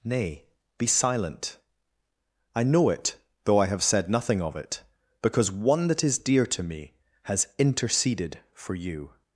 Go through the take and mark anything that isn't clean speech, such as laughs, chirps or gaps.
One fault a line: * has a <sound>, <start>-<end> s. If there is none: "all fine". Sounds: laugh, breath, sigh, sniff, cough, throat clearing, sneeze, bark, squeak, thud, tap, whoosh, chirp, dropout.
all fine